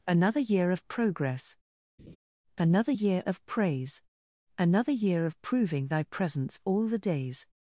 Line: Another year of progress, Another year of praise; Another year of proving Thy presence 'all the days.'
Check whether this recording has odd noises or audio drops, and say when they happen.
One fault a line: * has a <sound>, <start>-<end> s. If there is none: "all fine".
* has a laugh, 2.0-2.2 s